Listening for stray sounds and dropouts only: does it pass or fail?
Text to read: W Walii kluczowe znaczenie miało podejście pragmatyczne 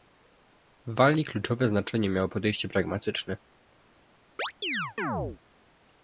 fail